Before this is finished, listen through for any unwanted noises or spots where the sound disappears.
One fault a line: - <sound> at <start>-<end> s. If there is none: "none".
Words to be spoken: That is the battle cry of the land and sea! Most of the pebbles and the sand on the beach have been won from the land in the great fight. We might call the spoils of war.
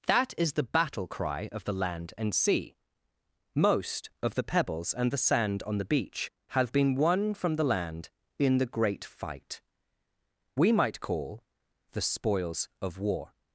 none